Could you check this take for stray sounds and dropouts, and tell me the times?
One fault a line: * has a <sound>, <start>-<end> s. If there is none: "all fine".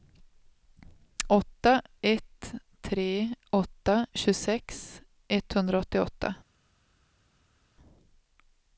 all fine